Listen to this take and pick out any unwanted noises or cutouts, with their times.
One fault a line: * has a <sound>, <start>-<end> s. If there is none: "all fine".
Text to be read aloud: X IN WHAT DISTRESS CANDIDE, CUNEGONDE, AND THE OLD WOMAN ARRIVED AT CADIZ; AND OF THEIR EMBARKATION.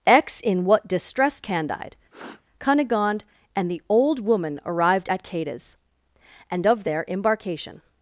* has a sniff, 2.1-2.4 s